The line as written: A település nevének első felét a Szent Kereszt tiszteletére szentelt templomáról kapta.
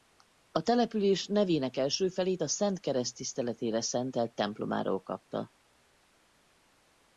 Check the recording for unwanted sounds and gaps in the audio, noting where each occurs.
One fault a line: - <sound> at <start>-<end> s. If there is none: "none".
none